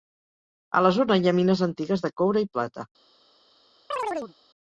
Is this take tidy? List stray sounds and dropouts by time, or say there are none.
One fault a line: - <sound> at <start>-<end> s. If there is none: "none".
- chirp at 3.9-4.3 s